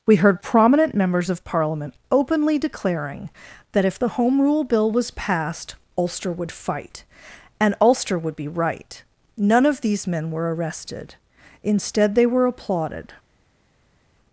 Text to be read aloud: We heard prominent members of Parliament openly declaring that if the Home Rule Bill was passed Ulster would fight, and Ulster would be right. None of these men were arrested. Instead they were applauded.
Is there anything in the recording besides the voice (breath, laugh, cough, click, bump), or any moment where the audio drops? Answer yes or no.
no